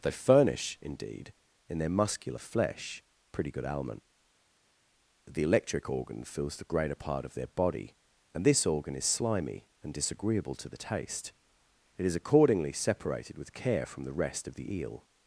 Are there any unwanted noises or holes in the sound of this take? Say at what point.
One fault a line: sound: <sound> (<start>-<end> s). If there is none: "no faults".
no faults